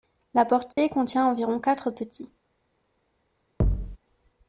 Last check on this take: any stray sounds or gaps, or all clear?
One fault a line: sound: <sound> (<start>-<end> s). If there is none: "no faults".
sound: dropout (0.7-0.8 s)
sound: thud (3.6-4.0 s)